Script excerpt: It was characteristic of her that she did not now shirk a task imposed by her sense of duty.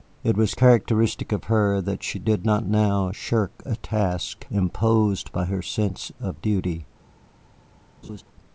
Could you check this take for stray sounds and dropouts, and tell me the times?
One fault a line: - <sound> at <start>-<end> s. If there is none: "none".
- laugh at 8.0-8.2 s